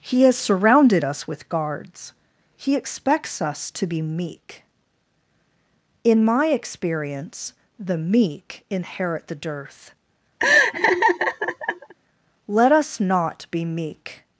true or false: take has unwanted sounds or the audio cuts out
true